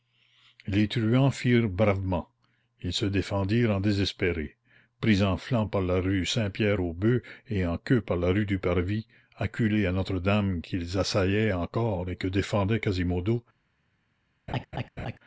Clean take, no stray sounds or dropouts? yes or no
no